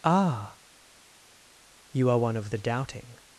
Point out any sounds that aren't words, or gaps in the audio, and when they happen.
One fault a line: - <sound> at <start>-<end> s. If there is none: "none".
none